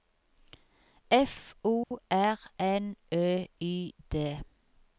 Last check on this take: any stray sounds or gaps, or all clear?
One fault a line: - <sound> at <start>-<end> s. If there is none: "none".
- dropout at 1.8-1.9 s